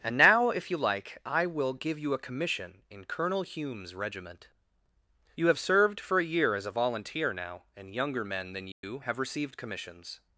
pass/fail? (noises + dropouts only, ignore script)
fail